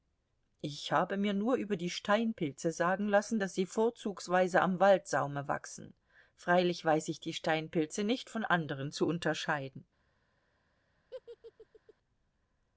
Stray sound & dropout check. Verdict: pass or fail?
fail